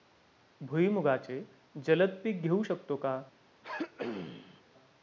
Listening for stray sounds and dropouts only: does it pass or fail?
fail